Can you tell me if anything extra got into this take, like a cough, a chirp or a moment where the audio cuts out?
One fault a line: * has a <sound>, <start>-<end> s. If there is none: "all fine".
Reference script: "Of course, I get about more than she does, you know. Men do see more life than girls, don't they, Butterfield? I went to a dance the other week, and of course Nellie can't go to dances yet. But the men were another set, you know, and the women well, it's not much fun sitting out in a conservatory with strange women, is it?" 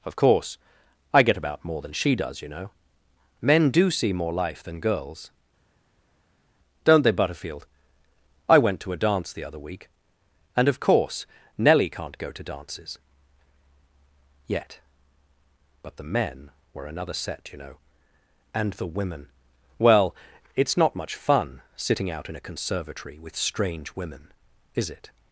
all fine